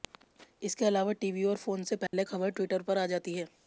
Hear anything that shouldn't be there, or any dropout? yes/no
yes